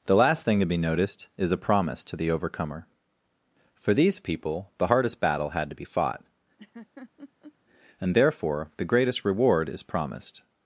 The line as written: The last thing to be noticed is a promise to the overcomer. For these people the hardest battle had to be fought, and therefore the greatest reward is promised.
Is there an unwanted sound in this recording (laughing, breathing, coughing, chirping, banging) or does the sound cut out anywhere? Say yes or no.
yes